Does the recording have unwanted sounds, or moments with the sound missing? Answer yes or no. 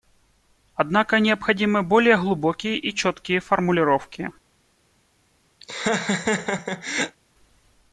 yes